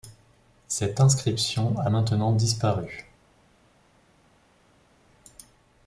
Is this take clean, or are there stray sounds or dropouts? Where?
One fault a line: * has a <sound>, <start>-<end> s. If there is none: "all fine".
all fine